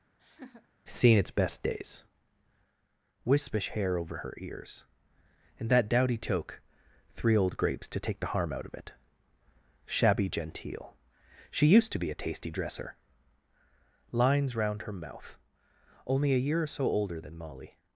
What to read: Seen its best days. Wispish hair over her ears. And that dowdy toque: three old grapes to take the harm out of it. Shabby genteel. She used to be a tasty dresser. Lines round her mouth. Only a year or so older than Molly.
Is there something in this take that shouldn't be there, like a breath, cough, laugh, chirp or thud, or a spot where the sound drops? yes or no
yes